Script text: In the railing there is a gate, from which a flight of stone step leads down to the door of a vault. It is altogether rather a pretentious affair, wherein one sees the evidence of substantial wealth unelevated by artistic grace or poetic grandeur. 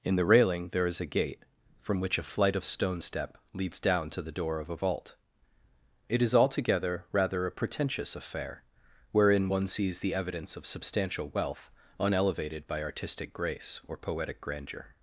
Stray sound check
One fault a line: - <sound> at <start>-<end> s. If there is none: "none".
none